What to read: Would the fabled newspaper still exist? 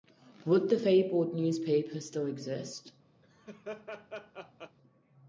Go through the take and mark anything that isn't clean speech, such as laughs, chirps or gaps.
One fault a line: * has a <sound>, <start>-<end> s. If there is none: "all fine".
* has a laugh, 3.2-4.8 s